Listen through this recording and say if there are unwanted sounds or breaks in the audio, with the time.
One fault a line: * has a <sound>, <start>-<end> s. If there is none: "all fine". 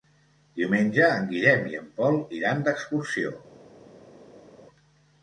all fine